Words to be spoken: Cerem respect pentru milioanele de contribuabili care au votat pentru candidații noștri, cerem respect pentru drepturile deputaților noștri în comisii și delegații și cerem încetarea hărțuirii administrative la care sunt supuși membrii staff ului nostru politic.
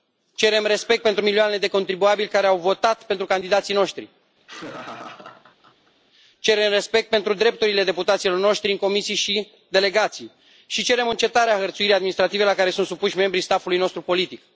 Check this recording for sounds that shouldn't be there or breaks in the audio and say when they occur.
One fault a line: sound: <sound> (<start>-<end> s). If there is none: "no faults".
sound: laugh (4.4-5.9 s)